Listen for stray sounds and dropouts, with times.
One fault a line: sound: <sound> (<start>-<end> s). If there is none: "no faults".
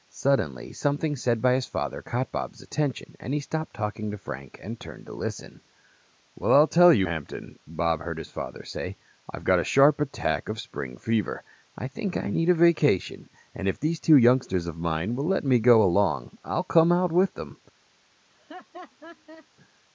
sound: laugh (18.3-19.5 s)